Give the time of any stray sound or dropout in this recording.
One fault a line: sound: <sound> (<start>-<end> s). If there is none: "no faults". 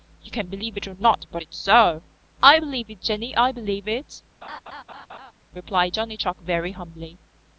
sound: laugh (4.4-5.3 s)